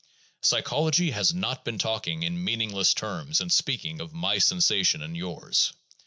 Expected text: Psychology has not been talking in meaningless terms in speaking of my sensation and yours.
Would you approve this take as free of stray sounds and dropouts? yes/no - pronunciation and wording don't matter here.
yes